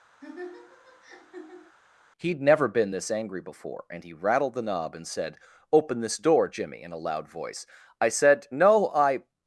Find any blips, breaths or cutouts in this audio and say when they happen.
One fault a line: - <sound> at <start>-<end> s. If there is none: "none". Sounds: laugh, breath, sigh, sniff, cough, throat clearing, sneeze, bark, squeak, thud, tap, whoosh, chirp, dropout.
- laugh at 0.2-1.8 s